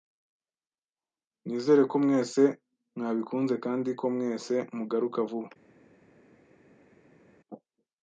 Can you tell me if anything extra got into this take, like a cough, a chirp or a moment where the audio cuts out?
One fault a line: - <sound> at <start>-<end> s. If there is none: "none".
none